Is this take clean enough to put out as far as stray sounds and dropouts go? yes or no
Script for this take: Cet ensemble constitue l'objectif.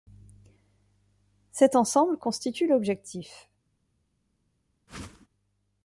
no